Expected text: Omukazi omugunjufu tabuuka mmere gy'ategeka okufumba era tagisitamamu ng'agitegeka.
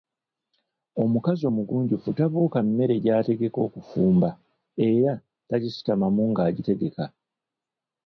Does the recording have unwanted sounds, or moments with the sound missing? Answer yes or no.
no